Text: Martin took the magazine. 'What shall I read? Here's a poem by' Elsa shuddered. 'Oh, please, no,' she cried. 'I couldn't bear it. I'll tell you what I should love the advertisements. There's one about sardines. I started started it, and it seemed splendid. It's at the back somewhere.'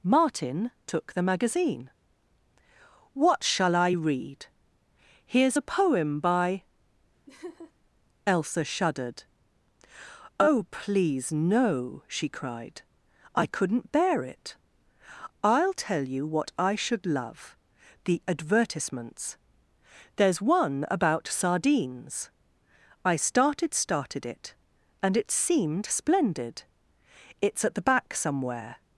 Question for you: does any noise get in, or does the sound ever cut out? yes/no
yes